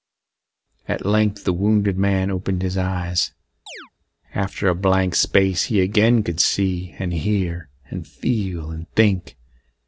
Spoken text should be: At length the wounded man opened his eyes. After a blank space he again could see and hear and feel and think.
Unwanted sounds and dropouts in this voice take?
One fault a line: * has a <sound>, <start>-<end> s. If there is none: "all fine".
* has a chirp, 3.7-3.9 s